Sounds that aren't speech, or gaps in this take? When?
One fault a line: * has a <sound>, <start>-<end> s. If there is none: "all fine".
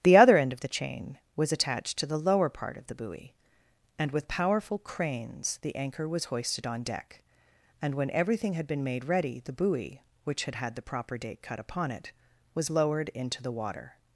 all fine